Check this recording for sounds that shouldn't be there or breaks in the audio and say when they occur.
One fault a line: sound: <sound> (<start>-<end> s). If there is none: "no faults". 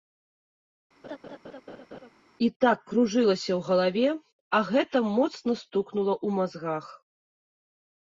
sound: laugh (1.0-2.1 s)